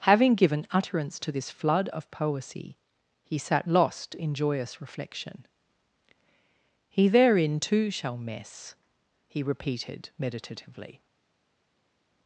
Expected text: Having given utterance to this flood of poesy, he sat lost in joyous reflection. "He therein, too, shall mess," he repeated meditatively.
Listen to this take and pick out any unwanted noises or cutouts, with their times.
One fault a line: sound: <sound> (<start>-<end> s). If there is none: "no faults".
no faults